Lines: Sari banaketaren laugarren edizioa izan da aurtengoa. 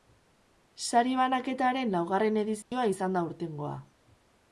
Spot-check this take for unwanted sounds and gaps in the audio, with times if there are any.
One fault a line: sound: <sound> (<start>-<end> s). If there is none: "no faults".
sound: dropout (2.6-2.7 s)